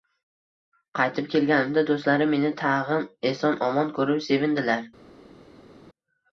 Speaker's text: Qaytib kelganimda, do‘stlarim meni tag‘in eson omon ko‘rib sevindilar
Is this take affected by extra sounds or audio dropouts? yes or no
no